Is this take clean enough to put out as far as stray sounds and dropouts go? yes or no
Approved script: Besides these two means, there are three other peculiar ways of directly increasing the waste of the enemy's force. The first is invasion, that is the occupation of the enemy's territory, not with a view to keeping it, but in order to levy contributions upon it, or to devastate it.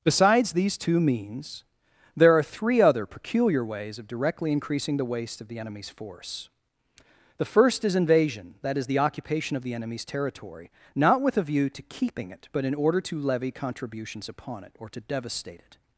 yes